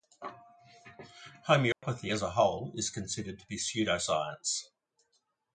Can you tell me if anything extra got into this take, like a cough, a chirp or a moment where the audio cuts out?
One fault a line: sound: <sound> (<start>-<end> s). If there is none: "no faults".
sound: dropout (1.7-1.8 s)